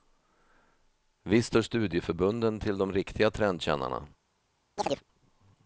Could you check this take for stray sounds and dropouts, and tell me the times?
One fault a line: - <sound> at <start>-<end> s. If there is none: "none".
- chirp at 4.8-5.0 s